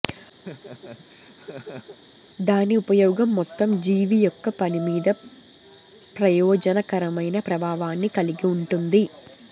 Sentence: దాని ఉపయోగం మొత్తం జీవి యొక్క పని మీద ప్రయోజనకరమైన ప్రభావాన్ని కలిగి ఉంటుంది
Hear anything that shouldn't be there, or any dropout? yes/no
yes